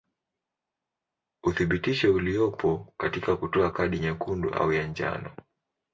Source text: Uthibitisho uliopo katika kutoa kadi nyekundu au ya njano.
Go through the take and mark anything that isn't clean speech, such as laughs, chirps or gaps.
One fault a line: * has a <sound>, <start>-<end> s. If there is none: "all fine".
all fine